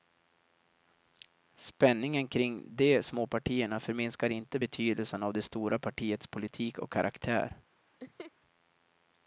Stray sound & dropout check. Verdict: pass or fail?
fail